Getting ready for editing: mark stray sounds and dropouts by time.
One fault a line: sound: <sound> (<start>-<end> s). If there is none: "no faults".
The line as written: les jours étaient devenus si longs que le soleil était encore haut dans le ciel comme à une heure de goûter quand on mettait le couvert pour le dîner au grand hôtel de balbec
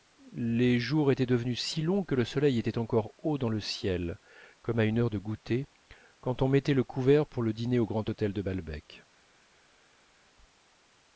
no faults